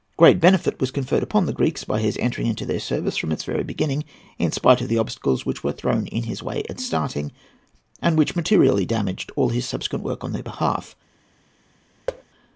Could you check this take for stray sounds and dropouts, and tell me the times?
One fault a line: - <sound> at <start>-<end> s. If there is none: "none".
- thud at 12.1-12.2 s